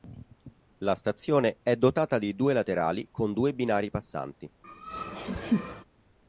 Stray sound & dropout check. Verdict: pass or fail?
fail